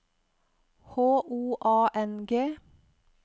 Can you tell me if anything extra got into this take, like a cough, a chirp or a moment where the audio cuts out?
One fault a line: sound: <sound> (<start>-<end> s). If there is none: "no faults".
no faults